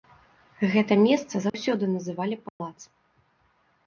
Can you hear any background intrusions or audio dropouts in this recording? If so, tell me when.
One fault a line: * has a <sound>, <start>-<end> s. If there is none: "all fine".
* has a dropout, 1.5-1.5 s
* has a dropout, 2.5-2.6 s